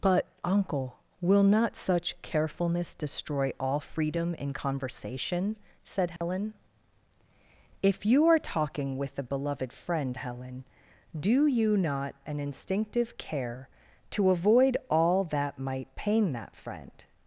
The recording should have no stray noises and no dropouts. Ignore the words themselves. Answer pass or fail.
fail